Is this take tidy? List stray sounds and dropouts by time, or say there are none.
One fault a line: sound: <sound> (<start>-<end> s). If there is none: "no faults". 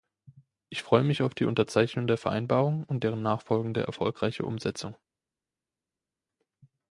no faults